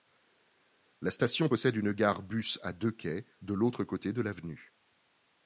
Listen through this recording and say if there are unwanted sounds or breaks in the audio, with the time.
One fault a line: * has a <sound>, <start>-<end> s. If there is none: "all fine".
all fine